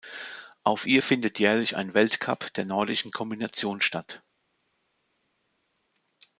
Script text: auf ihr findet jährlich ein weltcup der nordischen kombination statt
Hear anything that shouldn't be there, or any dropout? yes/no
no